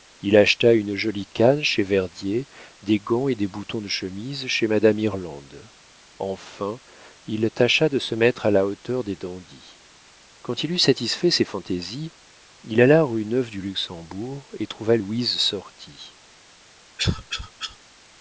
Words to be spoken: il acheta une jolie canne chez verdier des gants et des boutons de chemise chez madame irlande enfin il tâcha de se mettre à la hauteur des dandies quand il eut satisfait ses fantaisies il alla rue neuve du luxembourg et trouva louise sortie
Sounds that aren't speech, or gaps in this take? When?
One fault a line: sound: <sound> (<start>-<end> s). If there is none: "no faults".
sound: cough (17.0-17.8 s)